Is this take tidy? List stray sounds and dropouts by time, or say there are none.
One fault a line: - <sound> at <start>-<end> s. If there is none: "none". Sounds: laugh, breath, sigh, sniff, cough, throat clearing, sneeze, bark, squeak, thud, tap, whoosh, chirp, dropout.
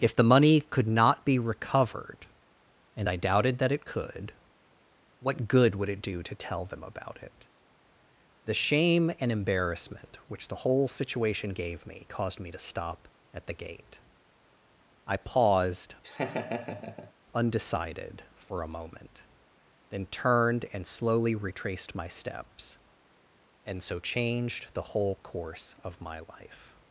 - laugh at 16.0-17.1 s